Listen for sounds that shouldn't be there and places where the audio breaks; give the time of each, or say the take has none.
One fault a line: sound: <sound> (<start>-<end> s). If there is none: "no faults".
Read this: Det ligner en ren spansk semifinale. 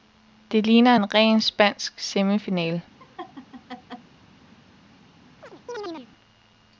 sound: laugh (3.0-4.1 s)
sound: chirp (5.4-6.1 s)